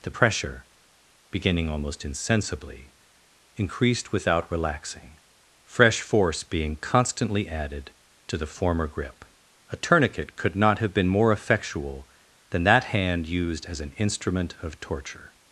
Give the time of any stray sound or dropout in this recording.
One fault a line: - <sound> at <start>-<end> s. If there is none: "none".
none